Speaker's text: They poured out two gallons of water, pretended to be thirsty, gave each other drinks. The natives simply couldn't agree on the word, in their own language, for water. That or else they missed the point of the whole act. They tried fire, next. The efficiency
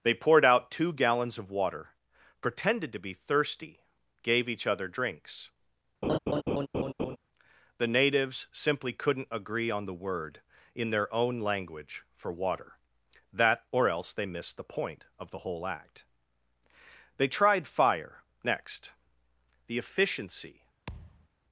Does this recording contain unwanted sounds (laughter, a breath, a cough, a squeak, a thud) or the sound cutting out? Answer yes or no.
yes